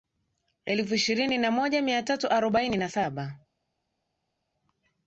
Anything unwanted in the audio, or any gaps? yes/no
no